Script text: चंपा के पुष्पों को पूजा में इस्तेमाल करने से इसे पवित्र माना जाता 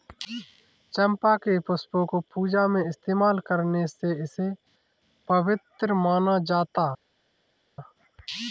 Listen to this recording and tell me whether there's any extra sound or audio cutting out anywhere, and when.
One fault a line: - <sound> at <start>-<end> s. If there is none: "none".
none